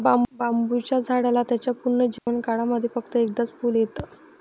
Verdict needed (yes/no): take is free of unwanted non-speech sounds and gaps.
no